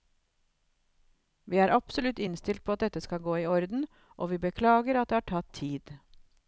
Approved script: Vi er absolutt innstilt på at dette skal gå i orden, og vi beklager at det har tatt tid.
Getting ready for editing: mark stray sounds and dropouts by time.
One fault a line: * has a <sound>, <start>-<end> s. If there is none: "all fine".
all fine